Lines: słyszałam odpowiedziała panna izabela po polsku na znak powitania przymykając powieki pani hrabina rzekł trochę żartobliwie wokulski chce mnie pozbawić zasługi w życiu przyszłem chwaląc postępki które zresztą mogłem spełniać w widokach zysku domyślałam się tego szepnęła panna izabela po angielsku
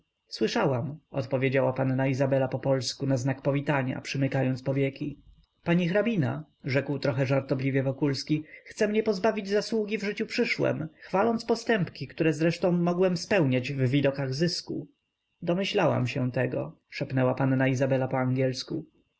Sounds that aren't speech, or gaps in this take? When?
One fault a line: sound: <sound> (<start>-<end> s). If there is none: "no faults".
no faults